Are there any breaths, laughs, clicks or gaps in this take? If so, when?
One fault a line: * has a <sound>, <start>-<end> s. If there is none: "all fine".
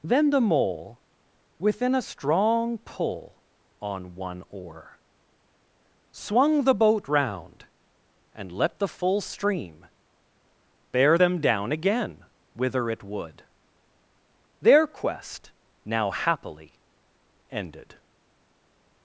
all fine